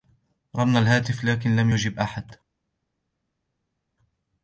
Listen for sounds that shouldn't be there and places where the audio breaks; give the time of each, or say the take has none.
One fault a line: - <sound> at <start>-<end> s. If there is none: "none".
none